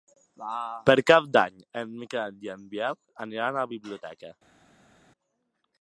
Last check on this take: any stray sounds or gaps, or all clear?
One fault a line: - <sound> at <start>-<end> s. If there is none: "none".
none